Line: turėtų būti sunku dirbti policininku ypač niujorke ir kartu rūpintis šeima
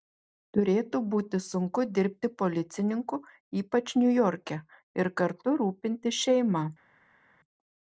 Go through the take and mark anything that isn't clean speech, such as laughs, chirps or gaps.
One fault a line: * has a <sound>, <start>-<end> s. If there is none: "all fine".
all fine